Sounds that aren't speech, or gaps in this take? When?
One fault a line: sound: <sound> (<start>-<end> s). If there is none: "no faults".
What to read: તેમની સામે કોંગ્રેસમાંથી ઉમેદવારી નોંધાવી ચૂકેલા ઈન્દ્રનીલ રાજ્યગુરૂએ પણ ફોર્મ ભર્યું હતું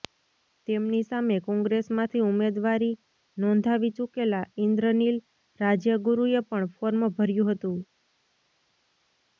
no faults